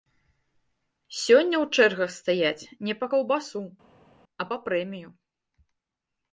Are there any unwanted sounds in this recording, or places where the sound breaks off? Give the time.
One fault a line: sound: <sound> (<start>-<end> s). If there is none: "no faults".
no faults